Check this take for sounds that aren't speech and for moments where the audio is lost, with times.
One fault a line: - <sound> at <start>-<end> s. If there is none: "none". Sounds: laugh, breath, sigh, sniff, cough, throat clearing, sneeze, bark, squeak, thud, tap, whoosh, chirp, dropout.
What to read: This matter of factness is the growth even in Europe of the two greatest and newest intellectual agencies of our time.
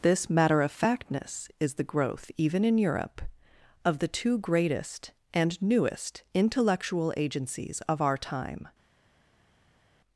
none